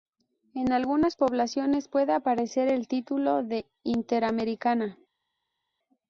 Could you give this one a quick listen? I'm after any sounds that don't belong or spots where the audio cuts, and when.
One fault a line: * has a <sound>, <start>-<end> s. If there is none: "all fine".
all fine